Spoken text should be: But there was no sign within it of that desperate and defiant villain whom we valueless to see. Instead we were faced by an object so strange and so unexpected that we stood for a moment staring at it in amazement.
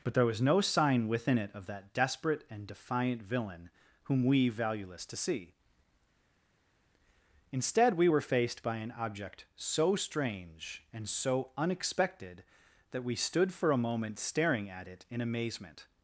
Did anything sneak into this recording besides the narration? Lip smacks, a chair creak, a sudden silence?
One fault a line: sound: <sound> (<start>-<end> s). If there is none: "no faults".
no faults